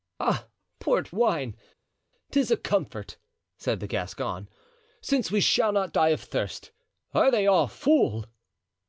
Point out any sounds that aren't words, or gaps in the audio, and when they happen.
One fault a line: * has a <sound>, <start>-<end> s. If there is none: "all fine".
all fine